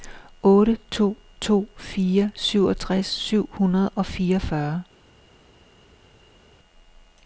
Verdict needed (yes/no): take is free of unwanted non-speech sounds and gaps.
yes